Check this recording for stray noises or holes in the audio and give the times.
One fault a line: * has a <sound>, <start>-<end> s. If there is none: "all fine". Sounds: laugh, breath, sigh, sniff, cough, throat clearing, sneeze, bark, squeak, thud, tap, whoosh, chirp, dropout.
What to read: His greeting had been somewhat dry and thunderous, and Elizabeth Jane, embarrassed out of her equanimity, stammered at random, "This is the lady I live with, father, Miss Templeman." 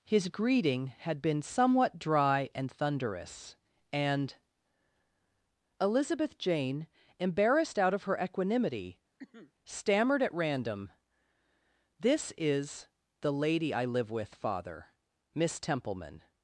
* has a cough, 9.2-9.5 s